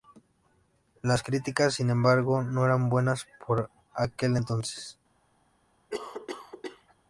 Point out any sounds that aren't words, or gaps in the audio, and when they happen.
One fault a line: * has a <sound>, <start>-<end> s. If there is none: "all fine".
* has a cough, 5.9-6.9 s